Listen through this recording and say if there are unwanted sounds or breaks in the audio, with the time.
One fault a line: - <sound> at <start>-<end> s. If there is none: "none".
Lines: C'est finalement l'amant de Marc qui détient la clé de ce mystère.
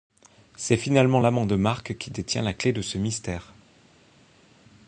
none